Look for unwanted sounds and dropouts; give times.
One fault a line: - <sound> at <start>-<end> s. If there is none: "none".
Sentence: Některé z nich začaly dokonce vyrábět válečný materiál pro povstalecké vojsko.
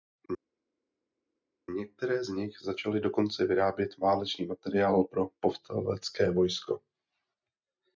none